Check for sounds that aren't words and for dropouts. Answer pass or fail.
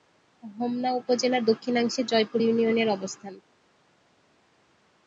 pass